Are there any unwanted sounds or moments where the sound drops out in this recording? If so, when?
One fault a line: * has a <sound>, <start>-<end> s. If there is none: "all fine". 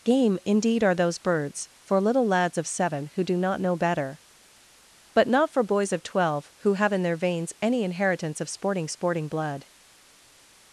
all fine